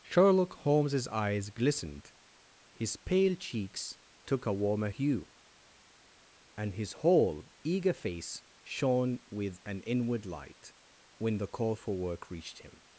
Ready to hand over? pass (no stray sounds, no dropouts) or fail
pass